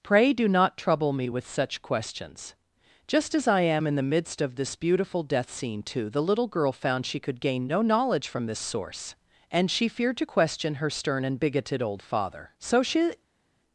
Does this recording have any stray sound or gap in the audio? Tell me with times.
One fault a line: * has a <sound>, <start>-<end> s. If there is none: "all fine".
all fine